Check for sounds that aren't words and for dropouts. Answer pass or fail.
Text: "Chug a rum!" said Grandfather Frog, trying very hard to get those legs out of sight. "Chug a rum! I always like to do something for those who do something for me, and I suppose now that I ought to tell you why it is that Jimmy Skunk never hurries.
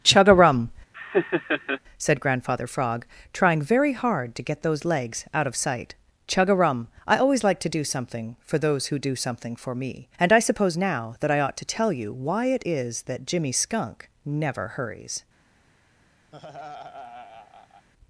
fail